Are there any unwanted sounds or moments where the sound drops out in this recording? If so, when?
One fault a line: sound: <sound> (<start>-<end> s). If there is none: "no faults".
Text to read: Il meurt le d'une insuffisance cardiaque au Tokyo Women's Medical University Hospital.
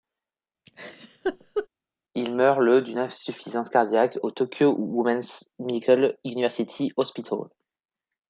sound: laugh (0.7-1.7 s)